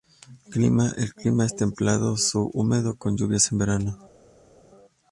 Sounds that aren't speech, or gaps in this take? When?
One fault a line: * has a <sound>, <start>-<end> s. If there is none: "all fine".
all fine